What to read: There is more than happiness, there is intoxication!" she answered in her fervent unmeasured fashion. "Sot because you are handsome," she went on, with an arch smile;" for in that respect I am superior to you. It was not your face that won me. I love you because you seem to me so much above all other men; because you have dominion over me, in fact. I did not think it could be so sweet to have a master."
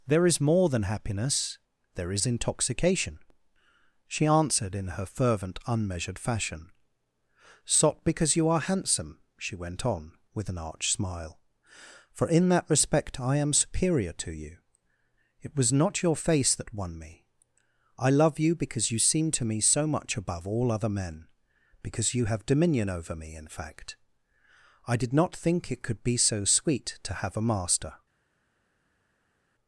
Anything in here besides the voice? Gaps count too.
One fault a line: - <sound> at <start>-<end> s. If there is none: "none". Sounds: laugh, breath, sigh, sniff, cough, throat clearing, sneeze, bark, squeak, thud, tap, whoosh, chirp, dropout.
none